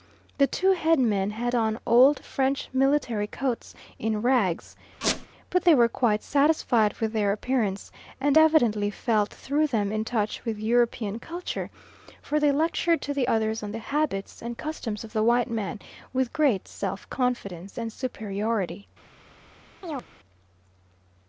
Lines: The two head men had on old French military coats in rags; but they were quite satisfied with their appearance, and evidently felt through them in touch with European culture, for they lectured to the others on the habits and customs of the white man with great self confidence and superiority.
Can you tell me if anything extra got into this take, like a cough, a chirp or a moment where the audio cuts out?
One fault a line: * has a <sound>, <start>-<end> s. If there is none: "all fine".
* has a squeak, 5.0-5.3 s
* has a chirp, 19.8-20.1 s